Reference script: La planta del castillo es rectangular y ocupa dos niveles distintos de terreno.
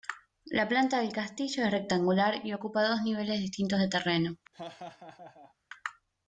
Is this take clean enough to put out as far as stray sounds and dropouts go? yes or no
no